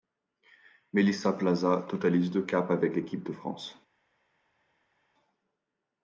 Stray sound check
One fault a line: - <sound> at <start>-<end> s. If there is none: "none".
none